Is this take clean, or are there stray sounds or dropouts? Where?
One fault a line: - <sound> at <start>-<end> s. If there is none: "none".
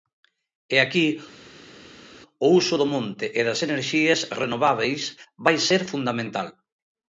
none